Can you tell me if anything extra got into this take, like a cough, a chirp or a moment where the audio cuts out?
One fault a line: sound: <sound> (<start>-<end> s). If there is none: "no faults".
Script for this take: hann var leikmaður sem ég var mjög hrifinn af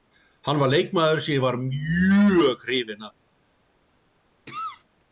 sound: cough (4.5-4.8 s)